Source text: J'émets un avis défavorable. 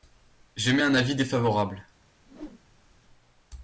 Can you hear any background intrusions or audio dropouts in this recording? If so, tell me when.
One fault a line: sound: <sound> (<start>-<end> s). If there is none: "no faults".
sound: whoosh (2.2-3.0 s)